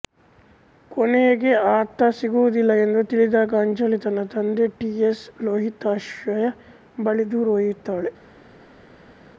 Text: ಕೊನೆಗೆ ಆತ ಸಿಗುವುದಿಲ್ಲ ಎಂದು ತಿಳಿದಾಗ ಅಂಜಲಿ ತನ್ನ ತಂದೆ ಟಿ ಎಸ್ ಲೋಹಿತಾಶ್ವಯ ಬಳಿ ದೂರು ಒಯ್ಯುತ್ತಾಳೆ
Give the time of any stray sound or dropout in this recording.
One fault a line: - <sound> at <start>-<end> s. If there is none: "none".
none